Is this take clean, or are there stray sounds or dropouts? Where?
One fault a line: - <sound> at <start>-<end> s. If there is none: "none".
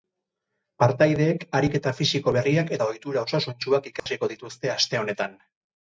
- dropout at 4.0-4.1 s